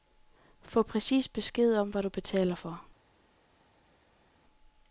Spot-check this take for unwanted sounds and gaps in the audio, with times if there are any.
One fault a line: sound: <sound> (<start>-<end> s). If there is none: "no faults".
no faults